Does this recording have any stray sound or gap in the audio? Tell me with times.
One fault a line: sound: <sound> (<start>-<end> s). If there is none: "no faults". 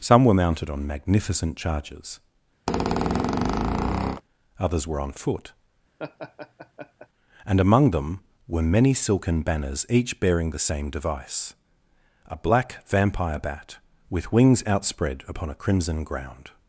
sound: squeak (2.7-4.2 s)
sound: laugh (6.0-7.1 s)